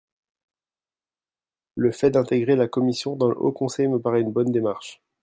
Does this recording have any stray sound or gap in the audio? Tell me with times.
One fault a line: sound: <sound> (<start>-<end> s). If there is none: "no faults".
no faults